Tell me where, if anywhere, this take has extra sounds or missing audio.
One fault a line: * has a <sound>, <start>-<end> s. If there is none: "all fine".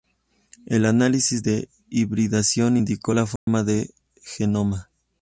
* has a dropout, 3.4-3.5 s